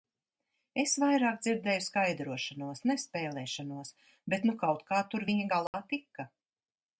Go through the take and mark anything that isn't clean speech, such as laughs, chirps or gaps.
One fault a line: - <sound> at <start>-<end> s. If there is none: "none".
- dropout at 5.7-5.7 s